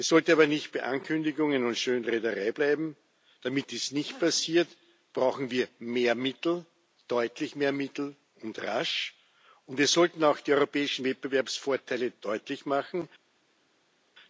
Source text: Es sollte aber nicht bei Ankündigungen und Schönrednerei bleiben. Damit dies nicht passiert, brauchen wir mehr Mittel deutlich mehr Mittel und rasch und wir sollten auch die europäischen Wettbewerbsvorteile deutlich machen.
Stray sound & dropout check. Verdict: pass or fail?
pass